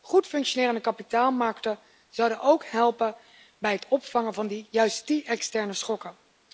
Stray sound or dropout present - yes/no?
no